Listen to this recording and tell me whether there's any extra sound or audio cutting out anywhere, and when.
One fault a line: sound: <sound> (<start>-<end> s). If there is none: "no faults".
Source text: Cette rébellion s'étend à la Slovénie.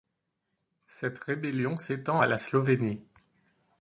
no faults